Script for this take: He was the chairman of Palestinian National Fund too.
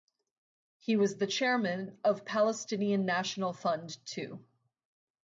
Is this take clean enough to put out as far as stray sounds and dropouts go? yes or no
yes